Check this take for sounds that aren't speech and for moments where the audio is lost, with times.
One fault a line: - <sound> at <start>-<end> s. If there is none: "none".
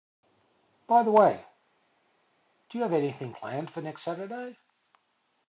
none